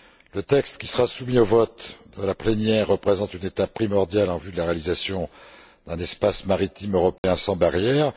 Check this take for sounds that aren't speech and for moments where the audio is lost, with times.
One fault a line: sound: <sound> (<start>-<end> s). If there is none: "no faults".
sound: dropout (7.2-7.2 s)